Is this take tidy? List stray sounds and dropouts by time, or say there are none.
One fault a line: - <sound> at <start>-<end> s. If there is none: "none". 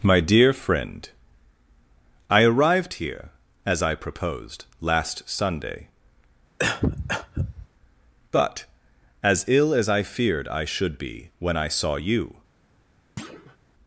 - cough at 6.6-7.7 s
- thud at 13.2-13.6 s